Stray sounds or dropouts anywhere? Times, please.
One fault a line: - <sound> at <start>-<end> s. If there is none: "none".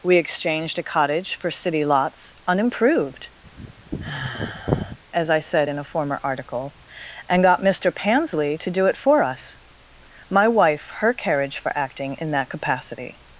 - sigh at 3.4-5.0 s